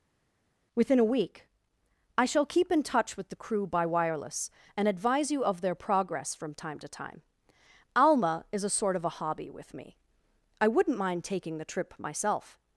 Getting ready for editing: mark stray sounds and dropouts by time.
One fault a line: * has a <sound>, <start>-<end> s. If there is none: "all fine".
all fine